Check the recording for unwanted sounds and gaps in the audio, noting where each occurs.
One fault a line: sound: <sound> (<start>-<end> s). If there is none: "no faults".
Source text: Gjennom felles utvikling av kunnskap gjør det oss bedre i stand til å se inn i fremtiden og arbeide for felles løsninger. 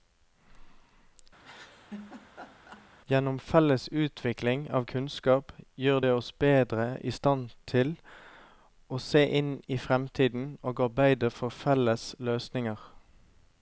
sound: laugh (1.4-2.9 s)